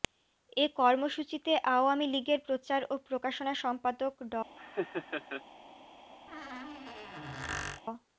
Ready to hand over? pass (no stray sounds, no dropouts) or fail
fail